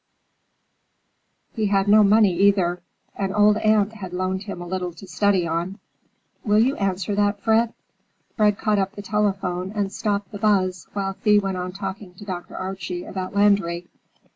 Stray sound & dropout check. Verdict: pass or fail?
pass